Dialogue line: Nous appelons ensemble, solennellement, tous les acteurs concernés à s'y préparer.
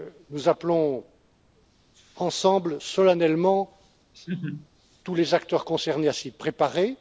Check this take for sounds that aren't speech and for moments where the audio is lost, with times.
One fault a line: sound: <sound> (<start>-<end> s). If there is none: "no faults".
sound: laugh (4.1-4.7 s)